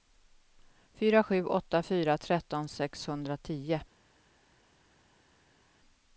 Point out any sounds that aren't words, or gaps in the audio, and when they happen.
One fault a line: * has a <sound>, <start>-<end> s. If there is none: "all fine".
all fine